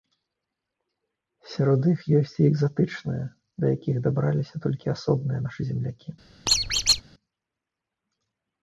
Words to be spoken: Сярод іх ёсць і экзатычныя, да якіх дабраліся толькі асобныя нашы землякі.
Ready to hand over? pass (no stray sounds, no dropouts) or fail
fail